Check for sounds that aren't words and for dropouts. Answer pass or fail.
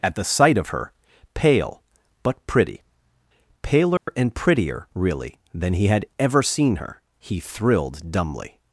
fail